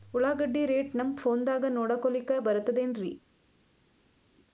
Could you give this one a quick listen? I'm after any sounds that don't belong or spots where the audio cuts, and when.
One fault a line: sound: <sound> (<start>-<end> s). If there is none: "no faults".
no faults